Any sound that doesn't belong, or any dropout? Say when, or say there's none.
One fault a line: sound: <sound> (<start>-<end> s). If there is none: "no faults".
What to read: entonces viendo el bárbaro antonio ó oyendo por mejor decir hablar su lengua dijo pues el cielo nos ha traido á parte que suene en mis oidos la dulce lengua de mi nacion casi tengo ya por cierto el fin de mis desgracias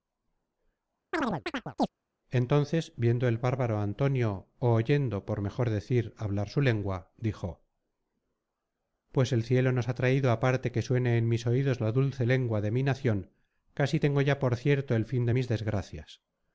sound: chirp (1.1-1.9 s)